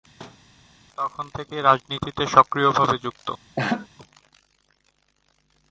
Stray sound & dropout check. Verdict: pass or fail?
fail